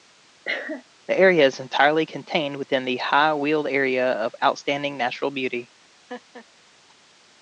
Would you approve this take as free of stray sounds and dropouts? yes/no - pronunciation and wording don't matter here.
no